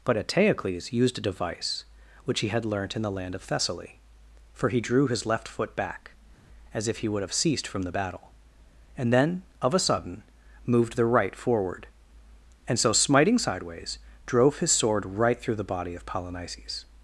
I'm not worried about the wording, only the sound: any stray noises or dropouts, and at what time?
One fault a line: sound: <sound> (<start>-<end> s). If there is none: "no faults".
no faults